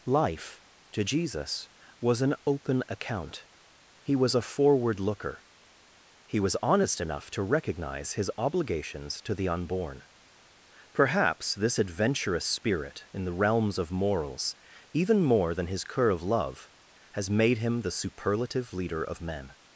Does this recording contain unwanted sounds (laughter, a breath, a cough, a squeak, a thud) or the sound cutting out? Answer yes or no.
no